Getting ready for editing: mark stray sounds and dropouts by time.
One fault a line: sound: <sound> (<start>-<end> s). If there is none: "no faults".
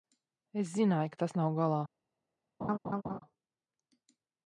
sound: laugh (2.6-3.2 s)